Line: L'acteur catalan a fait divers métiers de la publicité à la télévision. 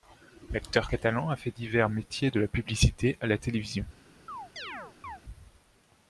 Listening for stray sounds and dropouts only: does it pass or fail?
fail